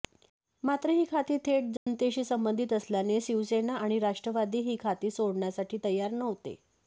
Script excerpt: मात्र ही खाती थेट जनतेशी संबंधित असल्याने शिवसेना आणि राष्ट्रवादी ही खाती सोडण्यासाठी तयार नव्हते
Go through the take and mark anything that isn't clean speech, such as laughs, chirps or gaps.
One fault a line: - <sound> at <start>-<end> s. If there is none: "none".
- dropout at 1.8-1.9 s